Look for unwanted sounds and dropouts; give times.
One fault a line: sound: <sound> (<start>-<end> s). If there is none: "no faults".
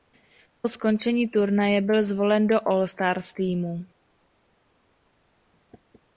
no faults